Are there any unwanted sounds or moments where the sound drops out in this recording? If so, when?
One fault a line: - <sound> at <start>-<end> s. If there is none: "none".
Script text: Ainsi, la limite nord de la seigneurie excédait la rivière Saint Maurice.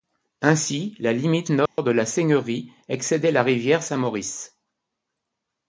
- dropout at 1.7-1.8 s